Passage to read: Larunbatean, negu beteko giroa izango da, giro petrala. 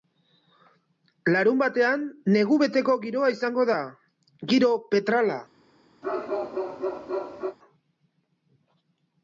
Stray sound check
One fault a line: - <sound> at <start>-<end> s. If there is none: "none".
- bark at 6.0-7.6 s